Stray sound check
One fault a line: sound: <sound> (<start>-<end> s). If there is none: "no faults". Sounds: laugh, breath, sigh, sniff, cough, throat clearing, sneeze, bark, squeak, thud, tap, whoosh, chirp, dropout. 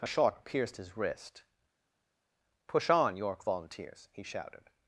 no faults